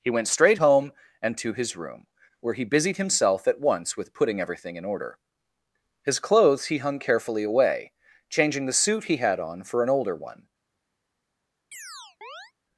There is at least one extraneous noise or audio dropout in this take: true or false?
true